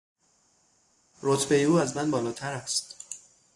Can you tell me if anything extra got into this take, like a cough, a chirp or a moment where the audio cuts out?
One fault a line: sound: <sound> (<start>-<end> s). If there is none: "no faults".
no faults